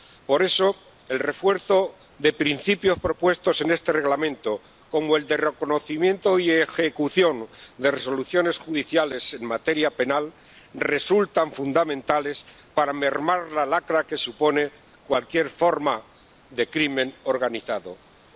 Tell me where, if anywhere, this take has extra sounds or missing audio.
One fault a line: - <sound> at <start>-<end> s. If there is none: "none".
none